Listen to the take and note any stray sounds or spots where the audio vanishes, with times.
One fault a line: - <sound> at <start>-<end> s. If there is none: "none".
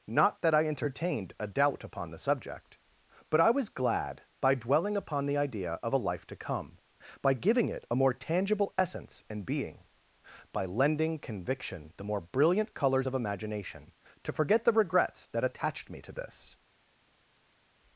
none